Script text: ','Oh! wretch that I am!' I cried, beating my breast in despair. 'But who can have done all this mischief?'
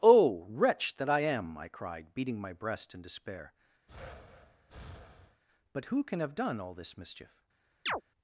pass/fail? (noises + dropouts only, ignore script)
fail